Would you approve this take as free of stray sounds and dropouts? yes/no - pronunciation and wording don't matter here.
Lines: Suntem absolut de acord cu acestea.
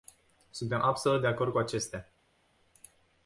yes